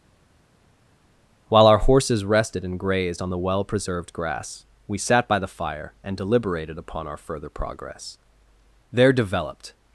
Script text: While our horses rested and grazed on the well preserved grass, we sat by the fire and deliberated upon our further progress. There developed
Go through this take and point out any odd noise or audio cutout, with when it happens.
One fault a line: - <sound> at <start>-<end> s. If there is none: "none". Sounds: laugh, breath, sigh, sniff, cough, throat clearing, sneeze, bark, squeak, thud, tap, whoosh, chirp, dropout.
none